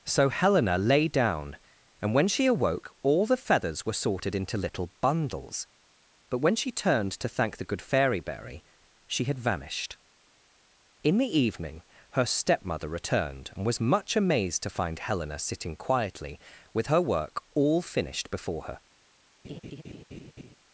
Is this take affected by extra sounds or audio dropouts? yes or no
yes